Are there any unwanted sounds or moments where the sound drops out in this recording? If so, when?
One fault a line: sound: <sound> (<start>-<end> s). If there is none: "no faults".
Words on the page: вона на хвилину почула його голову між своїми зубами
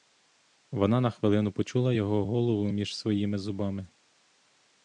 no faults